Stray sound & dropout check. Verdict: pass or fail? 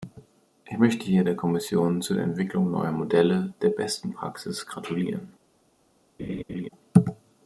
fail